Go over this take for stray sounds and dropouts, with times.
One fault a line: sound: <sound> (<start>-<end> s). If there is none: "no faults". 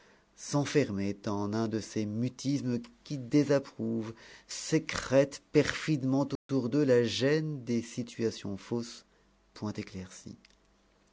sound: dropout (6.4-6.5 s)